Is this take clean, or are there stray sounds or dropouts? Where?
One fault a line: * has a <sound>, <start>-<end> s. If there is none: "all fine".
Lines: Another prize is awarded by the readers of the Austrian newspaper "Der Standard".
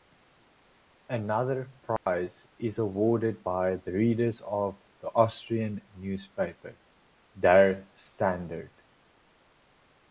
* has a dropout, 2.0-2.1 s